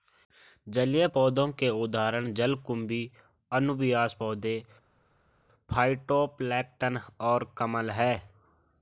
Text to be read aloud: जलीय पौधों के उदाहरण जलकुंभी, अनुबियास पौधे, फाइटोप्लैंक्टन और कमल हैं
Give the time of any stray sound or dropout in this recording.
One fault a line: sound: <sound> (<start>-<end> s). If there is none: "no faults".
no faults